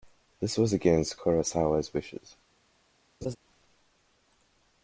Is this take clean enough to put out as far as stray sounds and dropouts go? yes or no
no